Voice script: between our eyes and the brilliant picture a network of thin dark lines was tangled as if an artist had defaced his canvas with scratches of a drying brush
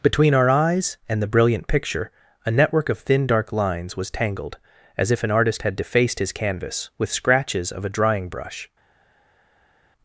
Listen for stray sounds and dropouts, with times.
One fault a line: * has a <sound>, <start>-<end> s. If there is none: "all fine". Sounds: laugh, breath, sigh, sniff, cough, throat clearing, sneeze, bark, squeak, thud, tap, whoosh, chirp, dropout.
all fine